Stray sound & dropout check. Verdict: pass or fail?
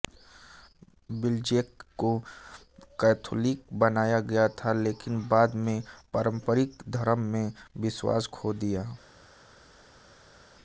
pass